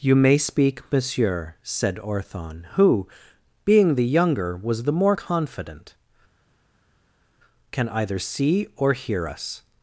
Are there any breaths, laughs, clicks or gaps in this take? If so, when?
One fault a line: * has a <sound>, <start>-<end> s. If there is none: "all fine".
all fine